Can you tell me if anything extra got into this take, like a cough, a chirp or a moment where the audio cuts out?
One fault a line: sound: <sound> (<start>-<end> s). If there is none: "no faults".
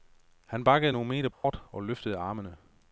sound: dropout (1.3-1.4 s)